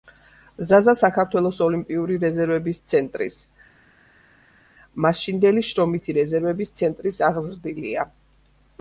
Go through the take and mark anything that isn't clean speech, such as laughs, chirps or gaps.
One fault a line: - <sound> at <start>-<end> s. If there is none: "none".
none